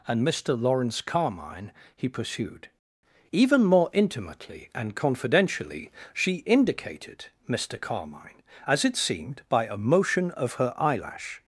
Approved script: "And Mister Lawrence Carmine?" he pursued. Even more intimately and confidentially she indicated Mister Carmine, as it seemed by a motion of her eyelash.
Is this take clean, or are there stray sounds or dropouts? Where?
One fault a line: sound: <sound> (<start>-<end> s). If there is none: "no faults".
no faults